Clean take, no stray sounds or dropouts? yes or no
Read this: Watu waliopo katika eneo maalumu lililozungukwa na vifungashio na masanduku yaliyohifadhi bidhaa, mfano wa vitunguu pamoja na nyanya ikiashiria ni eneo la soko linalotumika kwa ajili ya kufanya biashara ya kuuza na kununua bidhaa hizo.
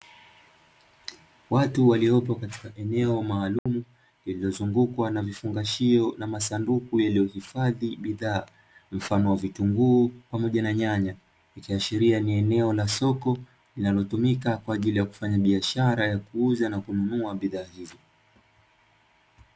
no